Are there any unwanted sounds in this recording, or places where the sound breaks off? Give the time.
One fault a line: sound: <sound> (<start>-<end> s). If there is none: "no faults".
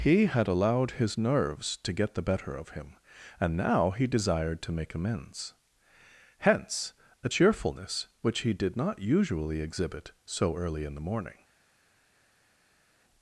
no faults